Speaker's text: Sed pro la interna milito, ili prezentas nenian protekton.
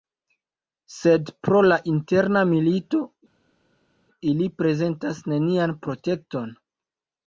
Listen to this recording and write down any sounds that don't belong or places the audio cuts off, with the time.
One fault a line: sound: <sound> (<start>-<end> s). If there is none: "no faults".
no faults